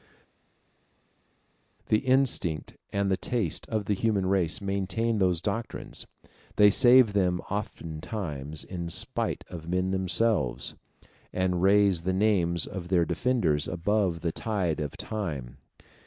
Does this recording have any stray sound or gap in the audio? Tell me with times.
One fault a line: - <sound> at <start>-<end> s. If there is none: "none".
none